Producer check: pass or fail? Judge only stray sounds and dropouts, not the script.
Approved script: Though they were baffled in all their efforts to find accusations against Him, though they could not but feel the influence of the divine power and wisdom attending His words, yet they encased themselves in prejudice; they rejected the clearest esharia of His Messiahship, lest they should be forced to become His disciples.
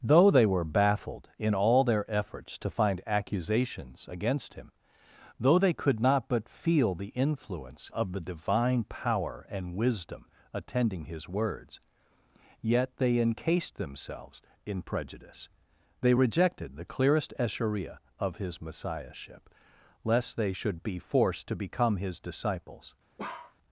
fail